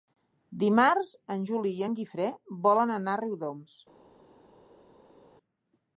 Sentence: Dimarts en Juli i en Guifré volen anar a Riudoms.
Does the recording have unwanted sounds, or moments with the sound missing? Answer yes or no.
no